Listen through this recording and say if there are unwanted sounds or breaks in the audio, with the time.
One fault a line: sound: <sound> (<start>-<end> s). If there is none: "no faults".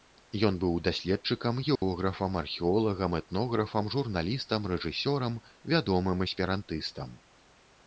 sound: dropout (1.8-1.8 s)